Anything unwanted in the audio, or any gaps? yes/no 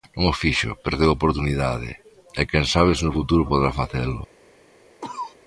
yes